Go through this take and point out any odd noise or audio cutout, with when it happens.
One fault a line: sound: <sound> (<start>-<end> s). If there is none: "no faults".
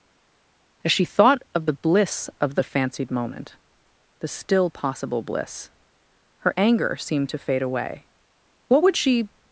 no faults